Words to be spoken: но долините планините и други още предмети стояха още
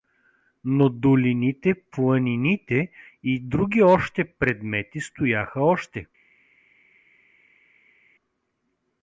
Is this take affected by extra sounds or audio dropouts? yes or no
no